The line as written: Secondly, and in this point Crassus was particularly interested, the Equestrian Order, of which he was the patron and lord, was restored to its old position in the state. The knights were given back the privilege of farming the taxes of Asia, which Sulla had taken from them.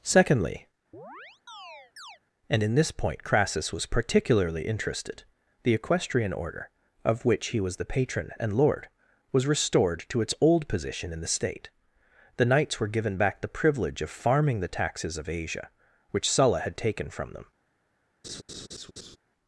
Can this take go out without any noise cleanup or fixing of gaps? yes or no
no